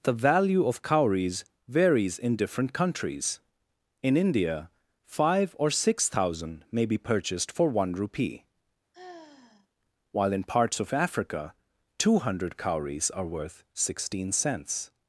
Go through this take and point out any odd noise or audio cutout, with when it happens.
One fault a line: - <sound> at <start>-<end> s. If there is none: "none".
- sigh at 8.9-9.7 s